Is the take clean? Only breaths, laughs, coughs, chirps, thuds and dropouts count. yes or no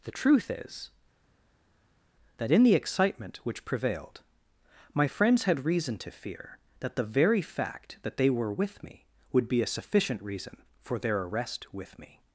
yes